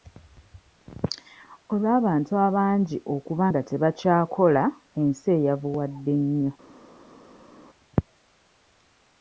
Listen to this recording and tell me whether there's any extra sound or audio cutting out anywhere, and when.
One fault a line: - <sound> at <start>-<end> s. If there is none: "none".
none